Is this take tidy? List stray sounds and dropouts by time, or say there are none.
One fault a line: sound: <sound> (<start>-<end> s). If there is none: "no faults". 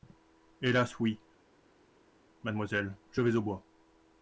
no faults